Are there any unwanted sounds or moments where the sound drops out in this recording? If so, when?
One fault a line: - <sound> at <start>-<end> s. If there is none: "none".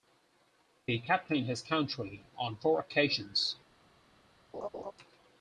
- laugh at 4.5-4.9 s